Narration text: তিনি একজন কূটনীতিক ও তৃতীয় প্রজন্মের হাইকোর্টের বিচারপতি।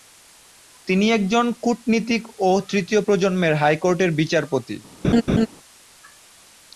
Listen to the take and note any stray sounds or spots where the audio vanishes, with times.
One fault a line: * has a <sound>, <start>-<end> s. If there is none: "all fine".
* has a laugh, 5.0-5.5 s